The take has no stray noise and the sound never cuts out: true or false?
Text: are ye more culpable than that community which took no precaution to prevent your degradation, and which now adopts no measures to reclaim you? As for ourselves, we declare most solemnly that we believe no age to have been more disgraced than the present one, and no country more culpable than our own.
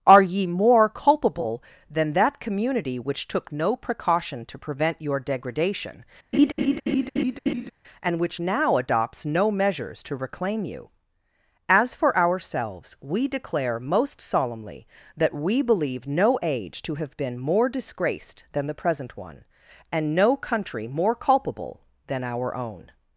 false